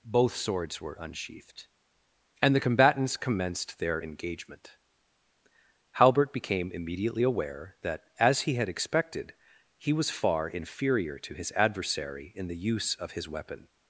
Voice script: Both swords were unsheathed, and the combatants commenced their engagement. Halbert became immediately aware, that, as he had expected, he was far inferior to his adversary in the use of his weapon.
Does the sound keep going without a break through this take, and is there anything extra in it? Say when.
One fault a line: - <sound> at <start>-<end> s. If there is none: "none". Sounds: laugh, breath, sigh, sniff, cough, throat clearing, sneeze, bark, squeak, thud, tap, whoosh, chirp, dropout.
none